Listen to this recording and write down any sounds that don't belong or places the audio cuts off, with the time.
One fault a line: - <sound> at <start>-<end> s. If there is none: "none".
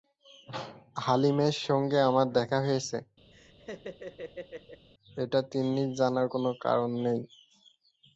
- laugh at 3.3-4.9 s